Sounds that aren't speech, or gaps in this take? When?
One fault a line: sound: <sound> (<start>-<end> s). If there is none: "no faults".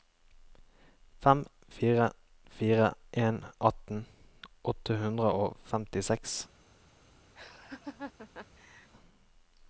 sound: laugh (7.4-8.9 s)